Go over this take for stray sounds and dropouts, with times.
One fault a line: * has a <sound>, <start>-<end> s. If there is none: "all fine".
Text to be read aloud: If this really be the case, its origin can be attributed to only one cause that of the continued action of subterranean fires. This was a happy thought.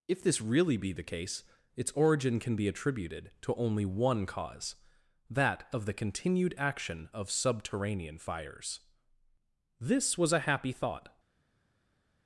all fine